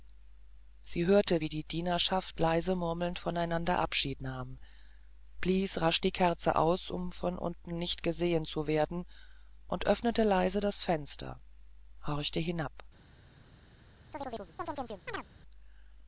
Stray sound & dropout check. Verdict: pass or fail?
fail